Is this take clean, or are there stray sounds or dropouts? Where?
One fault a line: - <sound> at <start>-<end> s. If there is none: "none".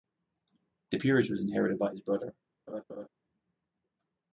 - laugh at 2.7-3.1 s